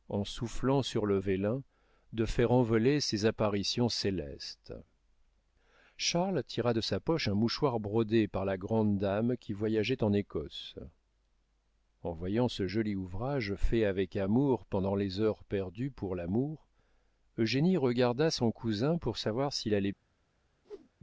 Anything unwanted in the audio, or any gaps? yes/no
yes